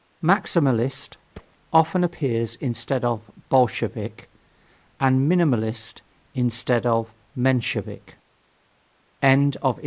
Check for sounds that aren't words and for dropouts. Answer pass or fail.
fail